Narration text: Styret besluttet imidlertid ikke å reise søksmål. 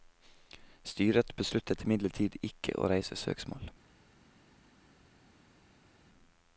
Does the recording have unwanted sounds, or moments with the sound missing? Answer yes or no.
no